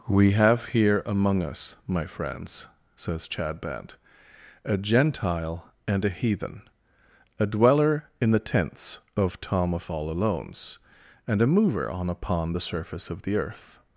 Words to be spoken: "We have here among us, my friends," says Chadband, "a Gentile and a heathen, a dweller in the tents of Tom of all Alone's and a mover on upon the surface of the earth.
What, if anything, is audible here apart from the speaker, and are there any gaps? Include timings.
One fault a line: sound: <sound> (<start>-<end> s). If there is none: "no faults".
no faults